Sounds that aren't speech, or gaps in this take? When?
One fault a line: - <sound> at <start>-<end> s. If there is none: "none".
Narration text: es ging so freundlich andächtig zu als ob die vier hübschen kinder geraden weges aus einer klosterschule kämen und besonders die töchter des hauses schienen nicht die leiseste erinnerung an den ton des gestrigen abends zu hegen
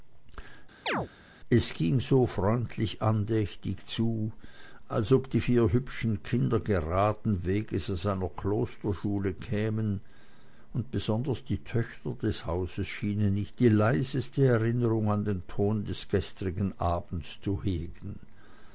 - chirp at 0.9-1.1 s